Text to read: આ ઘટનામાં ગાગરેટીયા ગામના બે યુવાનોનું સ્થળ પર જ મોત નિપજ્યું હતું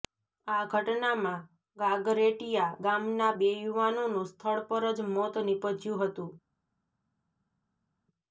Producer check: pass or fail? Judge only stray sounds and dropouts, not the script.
pass